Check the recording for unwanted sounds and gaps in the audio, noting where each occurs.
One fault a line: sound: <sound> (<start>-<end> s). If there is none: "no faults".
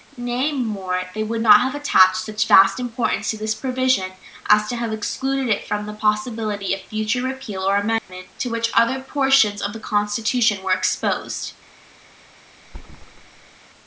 sound: dropout (8.0-8.1 s)
sound: thud (12.6-13.6 s)